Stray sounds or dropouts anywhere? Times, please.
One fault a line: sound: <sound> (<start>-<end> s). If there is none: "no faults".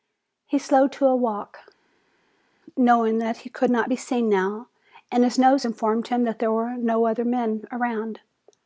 no faults